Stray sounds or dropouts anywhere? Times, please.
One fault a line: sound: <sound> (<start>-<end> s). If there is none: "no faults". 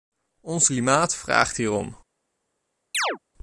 sound: chirp (2.9-3.2 s)